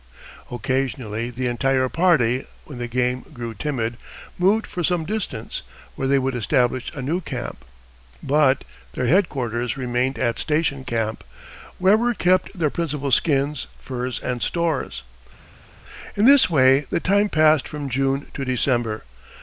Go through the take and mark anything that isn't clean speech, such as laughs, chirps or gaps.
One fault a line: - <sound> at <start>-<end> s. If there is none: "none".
none